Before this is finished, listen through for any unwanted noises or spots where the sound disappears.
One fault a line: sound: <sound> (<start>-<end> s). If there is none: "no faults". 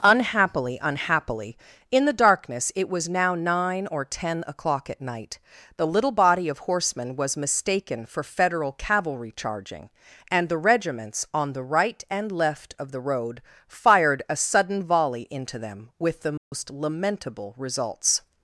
sound: dropout (16.4-16.5 s)